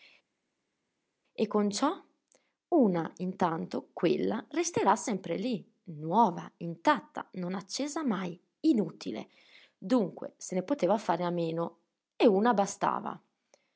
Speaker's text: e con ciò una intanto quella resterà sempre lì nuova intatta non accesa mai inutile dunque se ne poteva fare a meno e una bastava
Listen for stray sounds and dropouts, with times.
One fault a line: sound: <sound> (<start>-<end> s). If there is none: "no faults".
no faults